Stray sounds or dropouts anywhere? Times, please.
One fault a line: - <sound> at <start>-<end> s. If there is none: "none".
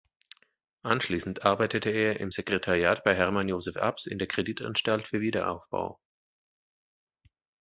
none